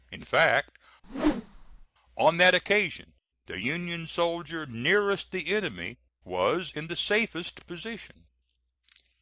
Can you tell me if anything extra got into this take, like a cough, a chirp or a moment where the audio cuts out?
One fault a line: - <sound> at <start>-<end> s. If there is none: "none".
- whoosh at 1.0-1.9 s